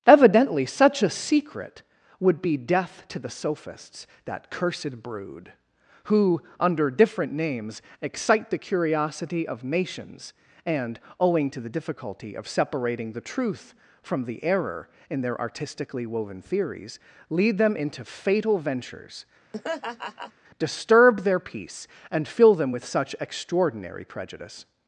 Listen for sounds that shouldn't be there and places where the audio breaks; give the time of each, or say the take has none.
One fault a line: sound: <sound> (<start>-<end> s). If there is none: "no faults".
sound: laugh (19.5-20.3 s)